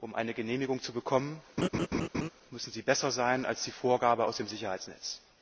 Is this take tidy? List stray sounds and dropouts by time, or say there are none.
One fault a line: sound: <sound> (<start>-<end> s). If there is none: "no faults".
sound: laugh (1.6-2.3 s)